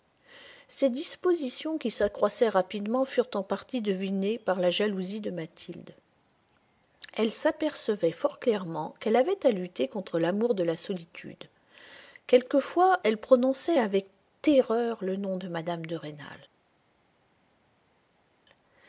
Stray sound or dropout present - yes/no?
no